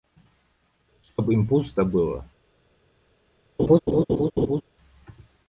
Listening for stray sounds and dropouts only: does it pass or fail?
fail